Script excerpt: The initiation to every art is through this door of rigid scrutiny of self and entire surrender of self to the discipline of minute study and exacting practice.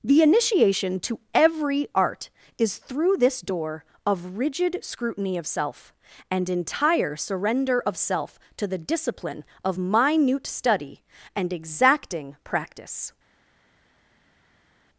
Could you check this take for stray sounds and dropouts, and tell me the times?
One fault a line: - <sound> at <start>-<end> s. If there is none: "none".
none